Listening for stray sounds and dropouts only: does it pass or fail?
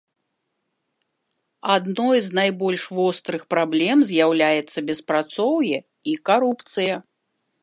pass